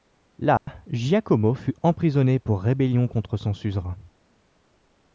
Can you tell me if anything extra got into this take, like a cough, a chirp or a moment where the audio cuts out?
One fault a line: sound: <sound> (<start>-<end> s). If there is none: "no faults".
sound: dropout (0.6-0.7 s)